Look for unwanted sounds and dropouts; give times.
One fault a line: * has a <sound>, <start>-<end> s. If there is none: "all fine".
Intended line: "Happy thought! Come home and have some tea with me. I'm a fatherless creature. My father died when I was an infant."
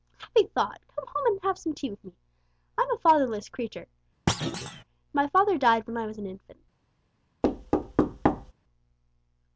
* has a thud, 4.3-4.8 s
* has a thud, 7.4-8.5 s